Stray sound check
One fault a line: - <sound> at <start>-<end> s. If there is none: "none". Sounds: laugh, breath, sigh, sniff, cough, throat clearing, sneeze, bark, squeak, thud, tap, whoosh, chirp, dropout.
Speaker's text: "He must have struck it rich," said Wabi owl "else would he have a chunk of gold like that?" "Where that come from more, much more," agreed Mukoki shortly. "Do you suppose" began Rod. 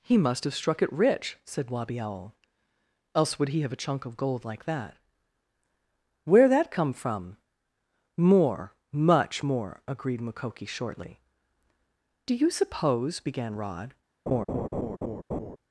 - laugh at 14.3-15.6 s